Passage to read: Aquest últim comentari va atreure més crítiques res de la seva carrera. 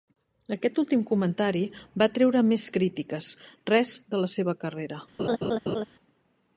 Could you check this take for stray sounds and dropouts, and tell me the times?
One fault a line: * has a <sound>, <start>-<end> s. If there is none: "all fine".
* has a laugh, 5.2-5.9 s